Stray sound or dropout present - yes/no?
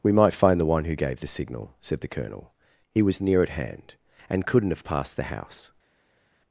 no